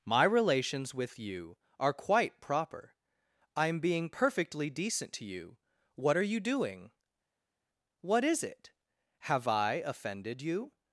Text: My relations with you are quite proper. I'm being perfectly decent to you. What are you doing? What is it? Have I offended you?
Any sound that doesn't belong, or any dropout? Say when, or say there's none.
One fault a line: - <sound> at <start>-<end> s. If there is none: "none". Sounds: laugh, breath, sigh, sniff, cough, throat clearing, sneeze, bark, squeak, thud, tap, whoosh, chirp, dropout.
none